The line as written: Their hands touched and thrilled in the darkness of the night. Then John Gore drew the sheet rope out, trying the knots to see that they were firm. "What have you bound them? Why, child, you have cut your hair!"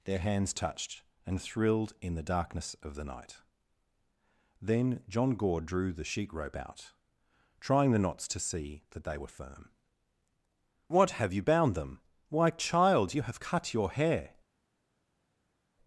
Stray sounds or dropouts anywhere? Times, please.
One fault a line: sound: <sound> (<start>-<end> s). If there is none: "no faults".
no faults